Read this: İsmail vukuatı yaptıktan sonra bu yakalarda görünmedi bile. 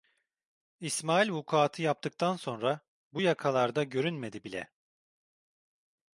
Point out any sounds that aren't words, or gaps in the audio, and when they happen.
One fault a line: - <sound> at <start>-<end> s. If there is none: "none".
none